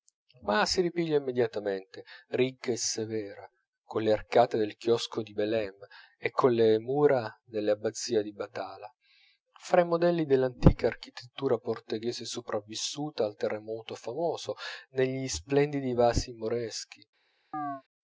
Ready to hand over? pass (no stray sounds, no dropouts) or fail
fail